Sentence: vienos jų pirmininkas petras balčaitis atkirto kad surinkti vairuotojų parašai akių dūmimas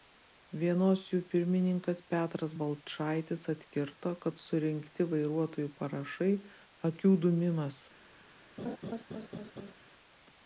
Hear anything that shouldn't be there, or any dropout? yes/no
yes